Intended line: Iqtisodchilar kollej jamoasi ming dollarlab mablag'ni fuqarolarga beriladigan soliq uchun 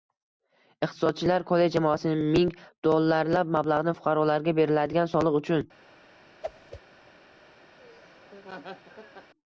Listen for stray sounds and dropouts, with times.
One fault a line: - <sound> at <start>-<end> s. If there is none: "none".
- whoosh at 6.4-6.8 s
- laugh at 7.8-9.3 s